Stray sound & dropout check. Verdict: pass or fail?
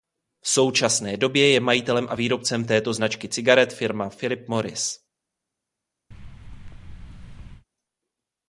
fail